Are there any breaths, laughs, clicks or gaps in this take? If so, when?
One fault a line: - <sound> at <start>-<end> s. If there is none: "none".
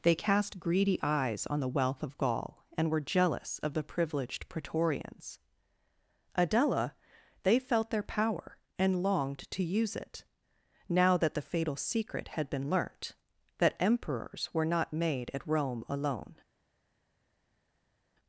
none